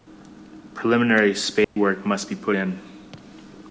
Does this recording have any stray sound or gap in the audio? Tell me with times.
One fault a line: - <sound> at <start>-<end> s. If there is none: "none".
- dropout at 1.6-1.8 s